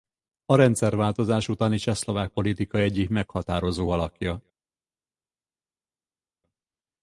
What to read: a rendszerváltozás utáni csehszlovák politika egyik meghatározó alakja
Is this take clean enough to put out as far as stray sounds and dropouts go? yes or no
yes